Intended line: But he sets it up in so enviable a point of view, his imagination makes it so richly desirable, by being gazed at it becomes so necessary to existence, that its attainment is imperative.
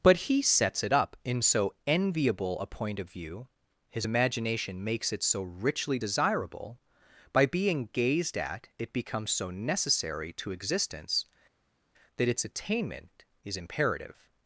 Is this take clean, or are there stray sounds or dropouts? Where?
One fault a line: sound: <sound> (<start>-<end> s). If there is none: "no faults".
no faults